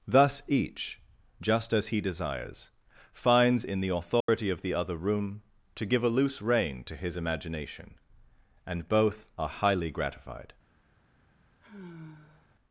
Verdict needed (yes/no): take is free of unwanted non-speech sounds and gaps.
no